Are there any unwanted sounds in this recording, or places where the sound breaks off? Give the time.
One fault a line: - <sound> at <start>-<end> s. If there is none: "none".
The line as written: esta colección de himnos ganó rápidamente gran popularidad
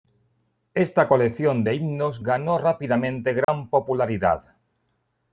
- dropout at 3.4-3.5 s